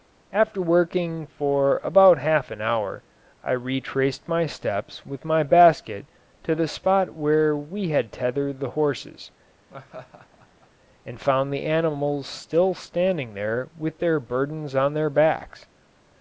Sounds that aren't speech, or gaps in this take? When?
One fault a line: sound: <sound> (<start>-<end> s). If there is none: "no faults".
sound: laugh (9.7-10.7 s)